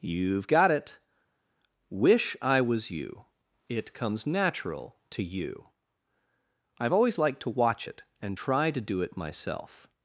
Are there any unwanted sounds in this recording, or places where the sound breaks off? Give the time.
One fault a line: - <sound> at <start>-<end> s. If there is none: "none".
none